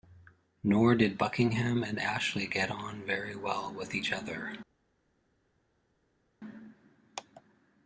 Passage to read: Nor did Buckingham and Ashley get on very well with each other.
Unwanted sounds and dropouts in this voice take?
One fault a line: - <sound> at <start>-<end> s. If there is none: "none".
none